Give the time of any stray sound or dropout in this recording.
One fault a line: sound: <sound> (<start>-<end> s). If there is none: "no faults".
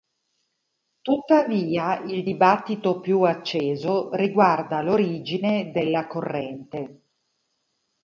no faults